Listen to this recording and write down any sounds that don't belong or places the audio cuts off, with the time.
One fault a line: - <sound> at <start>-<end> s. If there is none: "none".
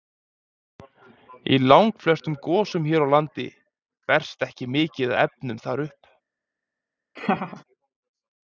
- laugh at 7.2-7.6 s